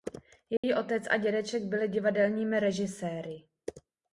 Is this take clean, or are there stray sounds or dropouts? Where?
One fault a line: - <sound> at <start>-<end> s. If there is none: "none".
- dropout at 0.6-0.6 s